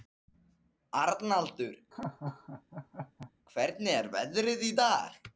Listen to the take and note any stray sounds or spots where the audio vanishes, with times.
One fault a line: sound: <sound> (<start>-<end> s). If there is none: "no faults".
sound: laugh (1.9-3.3 s)